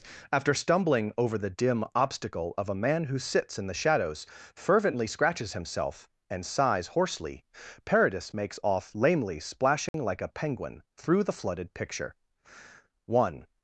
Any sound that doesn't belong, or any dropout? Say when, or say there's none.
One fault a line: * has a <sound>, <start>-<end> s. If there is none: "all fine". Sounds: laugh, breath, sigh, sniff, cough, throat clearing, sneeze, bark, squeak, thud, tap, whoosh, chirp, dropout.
* has a dropout, 9.9-9.9 s